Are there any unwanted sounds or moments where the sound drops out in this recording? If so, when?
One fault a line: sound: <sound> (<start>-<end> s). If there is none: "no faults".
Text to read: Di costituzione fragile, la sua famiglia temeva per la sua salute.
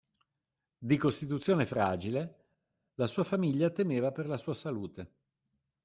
no faults